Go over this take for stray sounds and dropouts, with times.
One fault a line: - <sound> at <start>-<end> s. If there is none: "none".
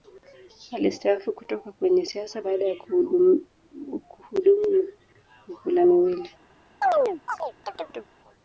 - chirp at 6.8-8.1 s